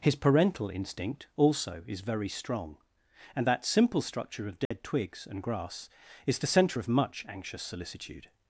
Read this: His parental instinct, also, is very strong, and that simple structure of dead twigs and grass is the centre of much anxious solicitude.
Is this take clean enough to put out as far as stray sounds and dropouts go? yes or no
no